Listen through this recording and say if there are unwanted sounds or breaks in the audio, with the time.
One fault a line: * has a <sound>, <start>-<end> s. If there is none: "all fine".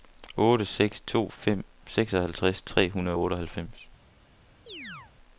* has a chirp, 4.7-5.1 s